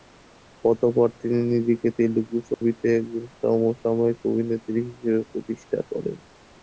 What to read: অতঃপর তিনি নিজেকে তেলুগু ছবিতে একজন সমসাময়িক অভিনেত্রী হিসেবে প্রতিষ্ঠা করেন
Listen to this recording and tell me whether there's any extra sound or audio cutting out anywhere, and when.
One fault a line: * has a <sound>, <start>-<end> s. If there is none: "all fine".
* has a dropout, 2.5-2.6 s